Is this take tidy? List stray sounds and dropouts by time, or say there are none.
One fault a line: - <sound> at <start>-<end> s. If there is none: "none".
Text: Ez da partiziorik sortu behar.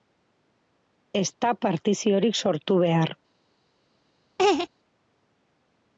- laugh at 4.4-4.7 s